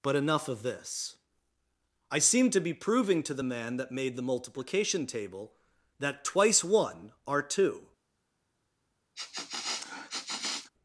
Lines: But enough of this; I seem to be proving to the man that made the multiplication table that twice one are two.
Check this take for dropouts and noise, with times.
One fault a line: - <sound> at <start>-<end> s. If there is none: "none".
- sniff at 9.2-10.7 s